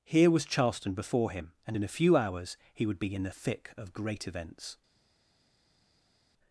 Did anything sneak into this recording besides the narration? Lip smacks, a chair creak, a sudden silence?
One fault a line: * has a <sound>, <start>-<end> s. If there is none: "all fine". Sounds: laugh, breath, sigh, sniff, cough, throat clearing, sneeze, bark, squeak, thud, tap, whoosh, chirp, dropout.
all fine